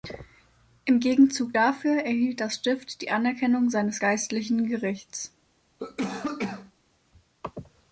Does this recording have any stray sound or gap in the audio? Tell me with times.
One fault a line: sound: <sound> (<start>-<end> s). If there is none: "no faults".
sound: cough (5.8-6.7 s)